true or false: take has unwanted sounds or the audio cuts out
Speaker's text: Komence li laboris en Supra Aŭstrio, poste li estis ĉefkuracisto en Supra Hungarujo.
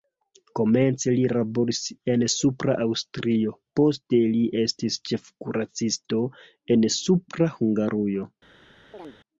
true